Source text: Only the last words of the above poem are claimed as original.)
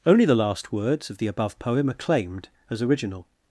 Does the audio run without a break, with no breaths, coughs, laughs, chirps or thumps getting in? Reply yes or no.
yes